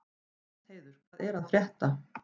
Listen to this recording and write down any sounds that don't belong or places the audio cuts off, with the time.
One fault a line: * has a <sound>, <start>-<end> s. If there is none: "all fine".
all fine